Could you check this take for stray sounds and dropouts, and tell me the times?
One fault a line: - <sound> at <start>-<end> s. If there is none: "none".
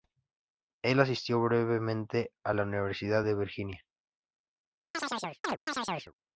- chirp at 4.9-6.1 s